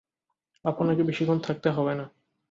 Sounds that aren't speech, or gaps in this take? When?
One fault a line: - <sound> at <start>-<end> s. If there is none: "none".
none